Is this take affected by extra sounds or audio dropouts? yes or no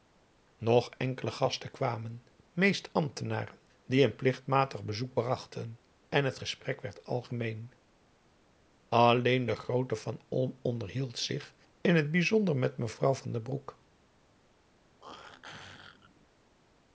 yes